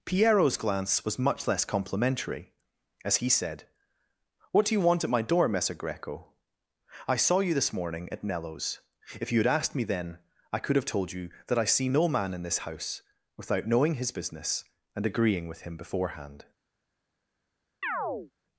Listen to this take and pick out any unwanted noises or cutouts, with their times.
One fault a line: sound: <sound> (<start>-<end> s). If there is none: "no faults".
sound: chirp (17.8-18.3 s)